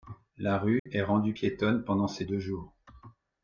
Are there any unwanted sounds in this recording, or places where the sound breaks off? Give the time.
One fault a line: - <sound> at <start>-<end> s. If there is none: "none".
- dropout at 0.8-0.9 s